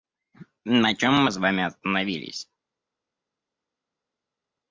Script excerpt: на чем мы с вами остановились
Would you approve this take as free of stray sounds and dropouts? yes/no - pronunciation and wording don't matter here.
yes